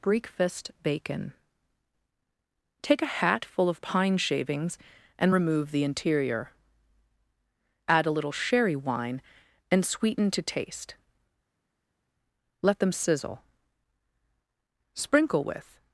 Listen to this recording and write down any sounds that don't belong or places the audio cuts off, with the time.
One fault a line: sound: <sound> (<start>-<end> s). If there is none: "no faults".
no faults